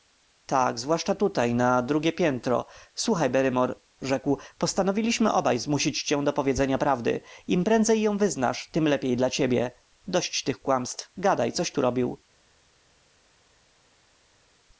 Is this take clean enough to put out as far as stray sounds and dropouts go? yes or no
yes